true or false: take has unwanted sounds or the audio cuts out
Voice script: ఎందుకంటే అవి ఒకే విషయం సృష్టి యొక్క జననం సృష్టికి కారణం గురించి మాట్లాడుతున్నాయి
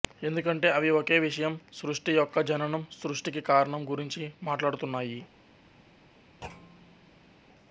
true